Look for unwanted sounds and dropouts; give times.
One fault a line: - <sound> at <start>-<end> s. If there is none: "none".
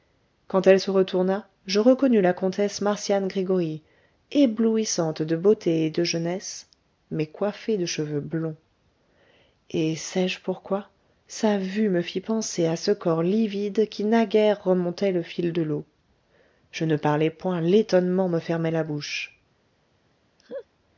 - laugh at 20.4-20.7 s